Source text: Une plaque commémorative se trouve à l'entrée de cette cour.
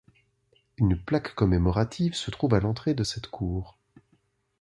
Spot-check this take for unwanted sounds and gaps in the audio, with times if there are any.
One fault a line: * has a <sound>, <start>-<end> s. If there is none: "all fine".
all fine